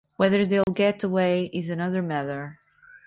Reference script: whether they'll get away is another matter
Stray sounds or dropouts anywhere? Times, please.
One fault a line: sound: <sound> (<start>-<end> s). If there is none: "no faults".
sound: dropout (0.6-0.7 s)